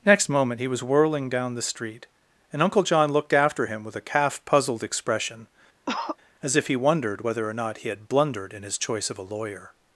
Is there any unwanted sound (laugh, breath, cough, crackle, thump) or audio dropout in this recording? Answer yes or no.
yes